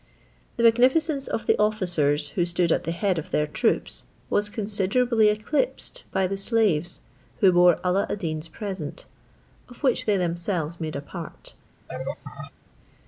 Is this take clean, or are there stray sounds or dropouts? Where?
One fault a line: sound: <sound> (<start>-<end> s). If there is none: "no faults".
sound: laugh (11.9-12.5 s)